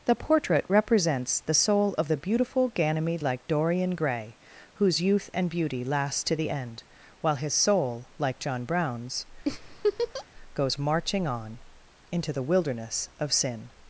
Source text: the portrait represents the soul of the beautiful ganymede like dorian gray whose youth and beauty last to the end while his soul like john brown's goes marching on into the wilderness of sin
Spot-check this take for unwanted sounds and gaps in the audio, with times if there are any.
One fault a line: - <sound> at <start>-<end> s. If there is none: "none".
- laugh at 9.5-10.3 s